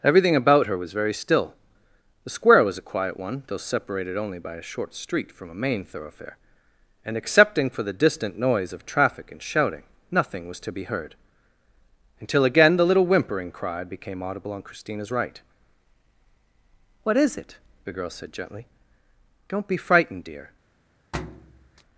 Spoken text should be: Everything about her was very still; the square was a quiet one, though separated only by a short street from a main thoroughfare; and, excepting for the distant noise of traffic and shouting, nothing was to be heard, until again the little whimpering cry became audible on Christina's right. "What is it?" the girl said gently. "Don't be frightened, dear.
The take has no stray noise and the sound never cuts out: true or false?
false